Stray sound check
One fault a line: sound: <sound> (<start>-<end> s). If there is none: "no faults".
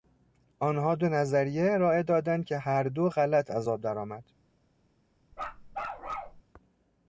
sound: bark (5.3-6.4 s)